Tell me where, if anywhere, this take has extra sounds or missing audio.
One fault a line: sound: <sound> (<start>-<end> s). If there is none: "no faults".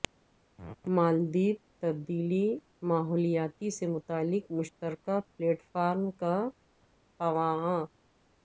no faults